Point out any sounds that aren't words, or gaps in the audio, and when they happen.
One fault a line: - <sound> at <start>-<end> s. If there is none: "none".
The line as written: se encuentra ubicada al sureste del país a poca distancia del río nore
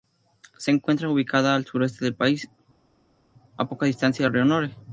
none